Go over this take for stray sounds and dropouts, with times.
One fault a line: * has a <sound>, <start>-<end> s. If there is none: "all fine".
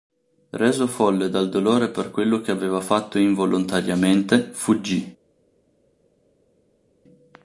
all fine